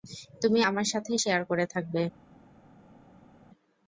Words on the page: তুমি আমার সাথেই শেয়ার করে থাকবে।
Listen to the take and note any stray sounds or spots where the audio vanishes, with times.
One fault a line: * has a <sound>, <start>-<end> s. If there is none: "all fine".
all fine